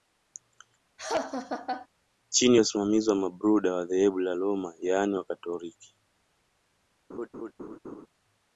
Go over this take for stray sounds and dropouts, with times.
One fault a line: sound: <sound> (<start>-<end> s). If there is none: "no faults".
sound: laugh (1.0-1.9 s)
sound: laugh (7.1-8.1 s)